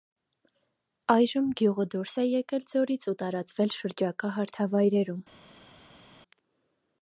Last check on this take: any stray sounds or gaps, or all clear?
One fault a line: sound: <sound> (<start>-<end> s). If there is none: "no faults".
no faults